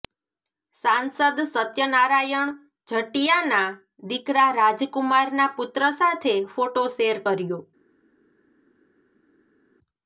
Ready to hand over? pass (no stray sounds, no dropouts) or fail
pass